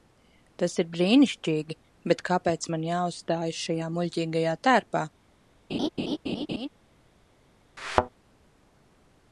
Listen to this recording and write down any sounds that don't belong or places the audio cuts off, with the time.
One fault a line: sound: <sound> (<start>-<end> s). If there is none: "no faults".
sound: laugh (5.7-6.7 s)
sound: thud (7.8-8.1 s)